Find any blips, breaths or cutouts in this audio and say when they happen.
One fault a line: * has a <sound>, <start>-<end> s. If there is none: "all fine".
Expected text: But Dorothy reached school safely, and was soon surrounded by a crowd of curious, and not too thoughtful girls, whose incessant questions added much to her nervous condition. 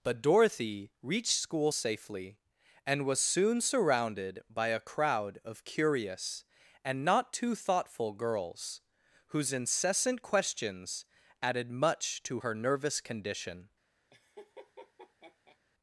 * has a laugh, 14.1-15.6 s